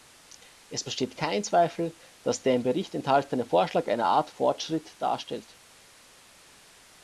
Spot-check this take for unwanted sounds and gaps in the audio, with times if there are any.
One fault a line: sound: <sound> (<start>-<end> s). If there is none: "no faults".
no faults